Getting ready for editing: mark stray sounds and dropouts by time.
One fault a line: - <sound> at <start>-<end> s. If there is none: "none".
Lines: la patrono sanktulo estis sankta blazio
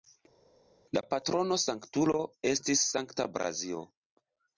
none